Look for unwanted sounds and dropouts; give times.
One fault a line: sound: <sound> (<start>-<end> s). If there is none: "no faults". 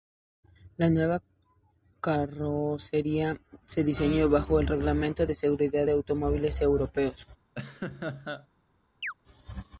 sound: laugh (7.6-8.5 s)
sound: chirp (9.0-9.1 s)